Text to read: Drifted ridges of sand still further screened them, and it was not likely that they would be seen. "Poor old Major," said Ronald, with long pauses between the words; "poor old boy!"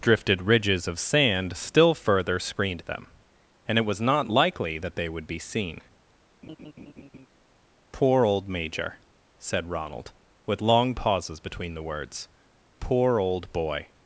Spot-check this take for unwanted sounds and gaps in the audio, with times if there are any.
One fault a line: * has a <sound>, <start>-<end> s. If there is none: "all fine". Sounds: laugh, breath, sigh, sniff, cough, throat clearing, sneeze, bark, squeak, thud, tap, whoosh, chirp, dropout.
* has a laugh, 6.4-7.3 s